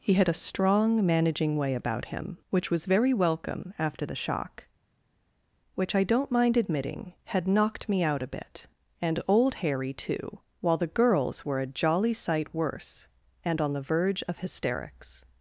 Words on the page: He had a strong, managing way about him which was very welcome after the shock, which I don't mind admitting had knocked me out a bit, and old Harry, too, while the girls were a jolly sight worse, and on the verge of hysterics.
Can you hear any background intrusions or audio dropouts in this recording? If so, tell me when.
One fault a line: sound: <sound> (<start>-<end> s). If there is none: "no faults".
no faults